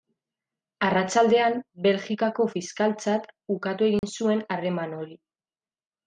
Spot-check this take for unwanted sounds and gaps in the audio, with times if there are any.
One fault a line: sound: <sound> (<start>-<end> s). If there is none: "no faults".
sound: dropout (4.0-4.0 s)